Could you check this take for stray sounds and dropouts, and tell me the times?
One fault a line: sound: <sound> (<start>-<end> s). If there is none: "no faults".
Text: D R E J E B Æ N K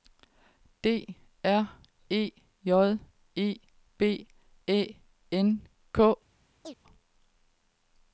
sound: chirp (6.6-6.8 s)